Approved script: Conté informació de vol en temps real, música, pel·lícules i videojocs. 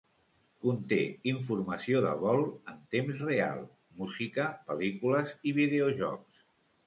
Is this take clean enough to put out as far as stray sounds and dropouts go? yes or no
yes